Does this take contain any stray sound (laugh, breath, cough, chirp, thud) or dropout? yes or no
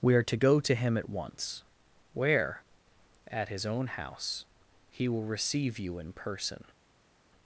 no